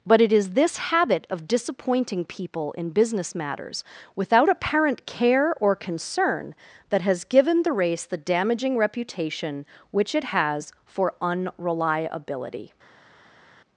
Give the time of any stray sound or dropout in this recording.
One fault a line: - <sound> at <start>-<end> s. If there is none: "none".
none